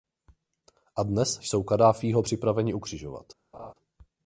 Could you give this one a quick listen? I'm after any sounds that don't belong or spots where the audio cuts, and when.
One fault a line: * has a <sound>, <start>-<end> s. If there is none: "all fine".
* has a laugh, 3.5-3.7 s